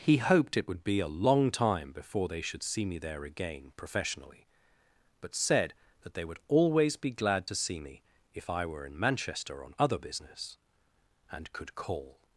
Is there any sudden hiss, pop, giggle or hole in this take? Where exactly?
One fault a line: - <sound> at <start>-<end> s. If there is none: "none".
none